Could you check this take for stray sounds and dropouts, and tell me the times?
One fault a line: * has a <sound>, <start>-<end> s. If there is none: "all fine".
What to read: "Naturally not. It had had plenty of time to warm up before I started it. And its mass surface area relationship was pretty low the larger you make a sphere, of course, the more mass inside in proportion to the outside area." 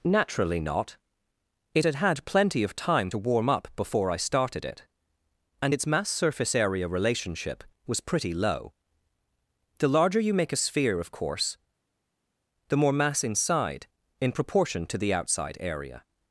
all fine